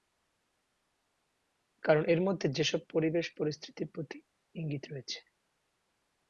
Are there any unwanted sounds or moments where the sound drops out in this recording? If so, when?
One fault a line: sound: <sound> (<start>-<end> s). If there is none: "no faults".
no faults